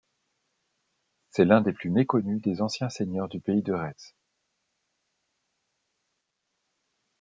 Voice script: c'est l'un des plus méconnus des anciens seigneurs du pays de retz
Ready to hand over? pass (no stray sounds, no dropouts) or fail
pass